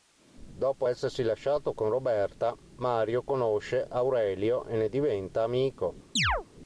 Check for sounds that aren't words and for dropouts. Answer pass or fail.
fail